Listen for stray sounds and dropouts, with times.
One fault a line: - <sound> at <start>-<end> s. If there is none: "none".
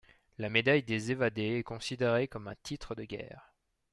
none